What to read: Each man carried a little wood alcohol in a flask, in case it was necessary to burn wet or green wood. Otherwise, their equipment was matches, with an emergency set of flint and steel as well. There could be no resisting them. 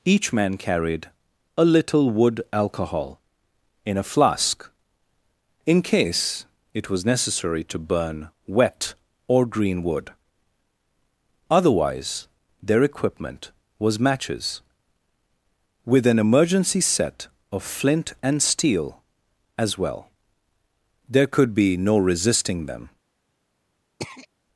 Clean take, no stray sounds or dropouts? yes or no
no